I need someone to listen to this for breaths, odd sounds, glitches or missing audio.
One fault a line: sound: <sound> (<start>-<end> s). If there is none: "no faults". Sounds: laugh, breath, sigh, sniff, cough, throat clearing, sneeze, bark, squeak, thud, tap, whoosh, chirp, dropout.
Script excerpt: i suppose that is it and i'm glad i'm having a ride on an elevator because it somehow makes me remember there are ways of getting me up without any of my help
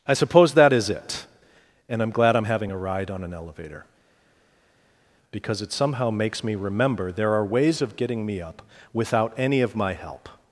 no faults